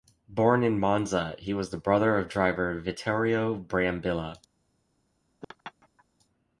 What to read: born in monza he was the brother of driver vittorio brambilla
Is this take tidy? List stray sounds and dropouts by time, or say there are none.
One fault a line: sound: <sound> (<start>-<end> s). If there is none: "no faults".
sound: laugh (5.4-6.0 s)